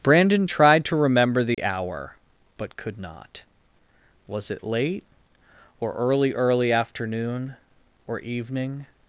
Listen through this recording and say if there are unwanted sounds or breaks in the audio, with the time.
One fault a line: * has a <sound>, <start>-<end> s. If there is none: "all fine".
* has a dropout, 1.5-1.6 s